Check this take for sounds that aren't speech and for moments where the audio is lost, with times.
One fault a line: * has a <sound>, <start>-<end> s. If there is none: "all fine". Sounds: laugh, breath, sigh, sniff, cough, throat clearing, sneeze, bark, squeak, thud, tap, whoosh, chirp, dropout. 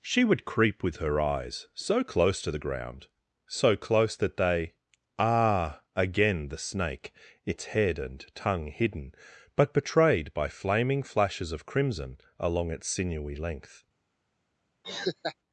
* has a laugh, 14.8-15.4 s